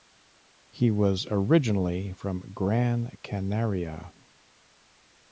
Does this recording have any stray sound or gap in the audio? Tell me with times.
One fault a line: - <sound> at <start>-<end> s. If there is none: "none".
none